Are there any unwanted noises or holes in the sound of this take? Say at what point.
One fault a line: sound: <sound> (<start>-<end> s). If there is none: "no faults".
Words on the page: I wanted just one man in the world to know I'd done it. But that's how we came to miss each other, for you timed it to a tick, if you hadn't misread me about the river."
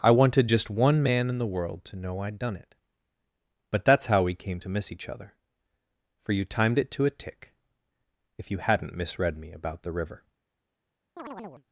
sound: chirp (11.2-11.7 s)